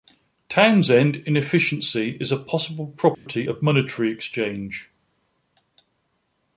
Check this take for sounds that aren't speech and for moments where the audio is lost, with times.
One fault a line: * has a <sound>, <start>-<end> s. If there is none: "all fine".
* has a dropout, 3.1-3.3 s